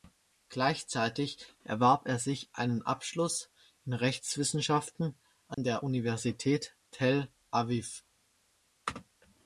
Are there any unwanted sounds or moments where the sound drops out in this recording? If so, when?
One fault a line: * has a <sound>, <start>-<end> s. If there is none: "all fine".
* has a dropout, 5.5-5.6 s